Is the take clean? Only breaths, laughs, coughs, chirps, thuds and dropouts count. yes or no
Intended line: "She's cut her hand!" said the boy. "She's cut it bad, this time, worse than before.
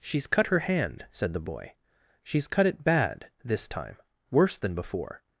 yes